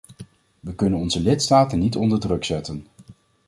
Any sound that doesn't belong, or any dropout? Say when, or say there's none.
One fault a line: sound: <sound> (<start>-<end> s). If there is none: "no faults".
no faults